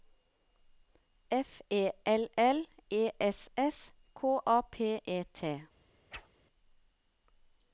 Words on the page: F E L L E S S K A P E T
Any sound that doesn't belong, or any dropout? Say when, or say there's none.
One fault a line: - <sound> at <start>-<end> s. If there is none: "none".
- whoosh at 6.1-6.3 s